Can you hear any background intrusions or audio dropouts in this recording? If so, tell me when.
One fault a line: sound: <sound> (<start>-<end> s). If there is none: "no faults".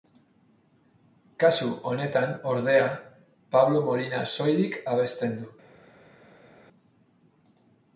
no faults